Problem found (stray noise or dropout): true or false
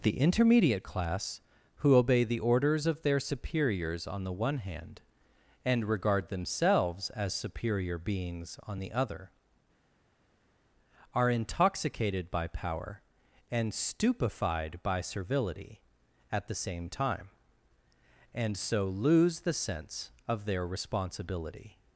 false